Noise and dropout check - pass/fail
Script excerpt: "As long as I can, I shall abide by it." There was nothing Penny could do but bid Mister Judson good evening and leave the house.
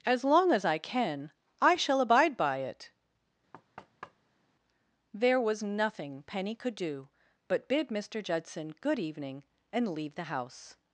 fail